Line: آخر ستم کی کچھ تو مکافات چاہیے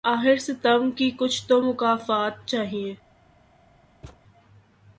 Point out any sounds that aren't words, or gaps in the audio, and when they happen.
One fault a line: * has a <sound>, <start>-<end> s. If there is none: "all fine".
* has a thud, 4.0-4.2 s